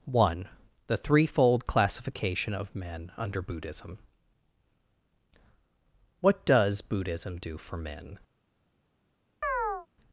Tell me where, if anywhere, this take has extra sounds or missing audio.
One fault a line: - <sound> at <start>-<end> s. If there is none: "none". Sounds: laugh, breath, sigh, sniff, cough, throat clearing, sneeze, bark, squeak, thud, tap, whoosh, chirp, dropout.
- chirp at 9.4-9.9 s